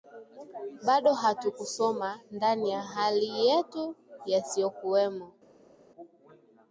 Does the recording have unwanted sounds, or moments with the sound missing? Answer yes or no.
no